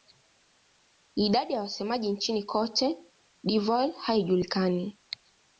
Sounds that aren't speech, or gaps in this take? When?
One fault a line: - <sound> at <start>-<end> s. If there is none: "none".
none